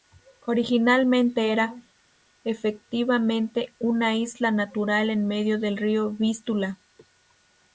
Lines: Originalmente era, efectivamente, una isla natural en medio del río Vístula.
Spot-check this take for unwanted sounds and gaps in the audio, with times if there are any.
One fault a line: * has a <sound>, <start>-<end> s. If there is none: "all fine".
all fine